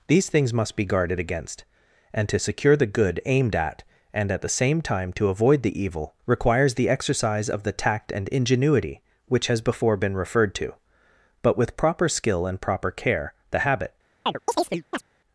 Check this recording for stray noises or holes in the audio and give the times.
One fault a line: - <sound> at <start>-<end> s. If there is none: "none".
- chirp at 14.3-15.0 s